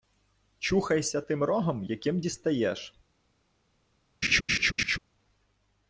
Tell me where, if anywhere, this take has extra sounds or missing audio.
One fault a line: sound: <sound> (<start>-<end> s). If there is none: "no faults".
sound: laugh (4.2-5.0 s)